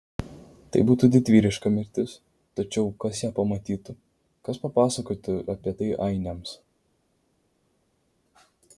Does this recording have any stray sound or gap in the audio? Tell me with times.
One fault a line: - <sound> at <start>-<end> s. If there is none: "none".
none